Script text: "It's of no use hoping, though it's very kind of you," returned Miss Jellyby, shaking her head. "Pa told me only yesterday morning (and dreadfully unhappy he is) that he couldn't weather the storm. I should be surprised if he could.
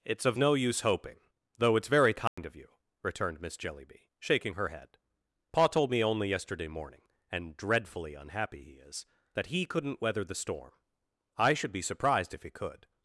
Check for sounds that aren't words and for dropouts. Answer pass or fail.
fail